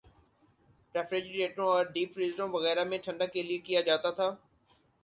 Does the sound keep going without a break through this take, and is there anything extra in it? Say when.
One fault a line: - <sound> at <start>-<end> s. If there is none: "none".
none